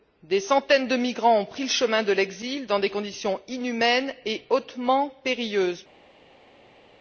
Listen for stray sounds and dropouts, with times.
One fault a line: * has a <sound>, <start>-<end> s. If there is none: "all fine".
all fine